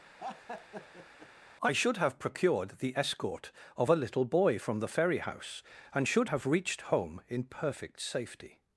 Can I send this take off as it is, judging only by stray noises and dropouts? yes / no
no